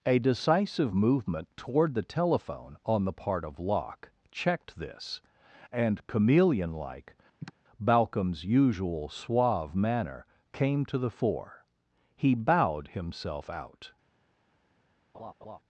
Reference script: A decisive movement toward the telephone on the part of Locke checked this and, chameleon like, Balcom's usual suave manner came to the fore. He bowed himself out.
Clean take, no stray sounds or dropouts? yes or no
no